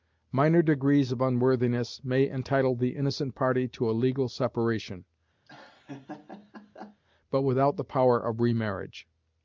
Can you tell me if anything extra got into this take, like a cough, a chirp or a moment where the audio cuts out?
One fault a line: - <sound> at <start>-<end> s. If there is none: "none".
- laugh at 5.5-7.0 s